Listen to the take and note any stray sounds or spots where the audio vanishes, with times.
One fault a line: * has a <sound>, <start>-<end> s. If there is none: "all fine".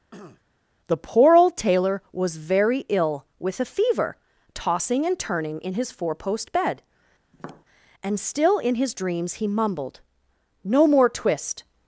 * has a throat clearing, 0.1-0.4 s
* has a tap, 7.3-7.6 s